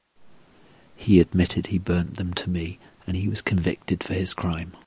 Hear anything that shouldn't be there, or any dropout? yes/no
no